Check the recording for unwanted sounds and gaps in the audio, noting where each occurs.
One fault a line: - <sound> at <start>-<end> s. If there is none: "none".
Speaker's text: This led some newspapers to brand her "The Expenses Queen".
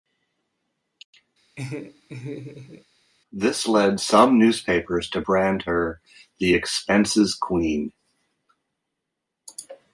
- laugh at 1.6-2.8 s